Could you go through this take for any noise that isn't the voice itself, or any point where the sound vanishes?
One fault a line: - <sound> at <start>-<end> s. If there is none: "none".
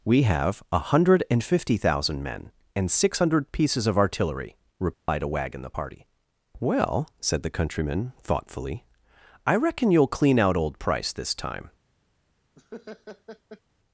- dropout at 4.9-5.1 s
- laugh at 12.6-13.6 s